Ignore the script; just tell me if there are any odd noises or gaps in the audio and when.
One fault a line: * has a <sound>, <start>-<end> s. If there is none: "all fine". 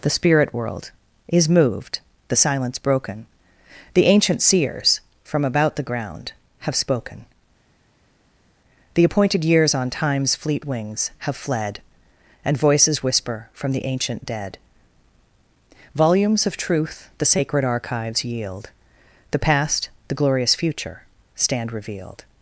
all fine